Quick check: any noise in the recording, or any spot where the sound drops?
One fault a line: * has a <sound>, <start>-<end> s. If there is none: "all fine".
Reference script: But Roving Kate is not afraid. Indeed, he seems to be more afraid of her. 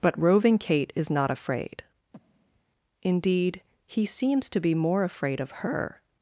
* has a breath, 2.1-2.6 s